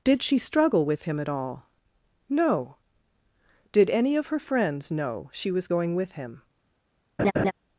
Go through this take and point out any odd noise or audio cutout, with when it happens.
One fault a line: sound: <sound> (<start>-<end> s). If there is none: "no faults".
sound: laugh (7.2-7.5 s)